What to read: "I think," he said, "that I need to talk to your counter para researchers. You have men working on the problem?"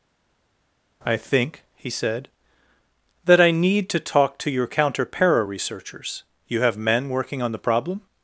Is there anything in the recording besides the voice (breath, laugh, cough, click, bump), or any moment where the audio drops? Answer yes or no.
no